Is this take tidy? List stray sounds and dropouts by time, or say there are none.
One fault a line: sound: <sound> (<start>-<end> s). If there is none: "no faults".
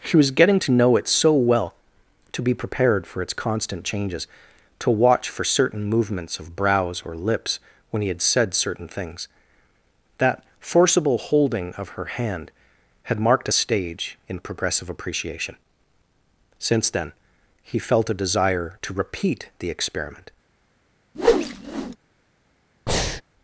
sound: whoosh (21.1-22.0 s)
sound: breath (22.9-23.2 s)